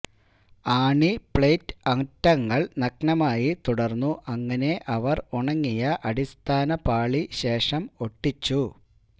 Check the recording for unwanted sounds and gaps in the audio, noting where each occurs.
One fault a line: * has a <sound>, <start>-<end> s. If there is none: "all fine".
all fine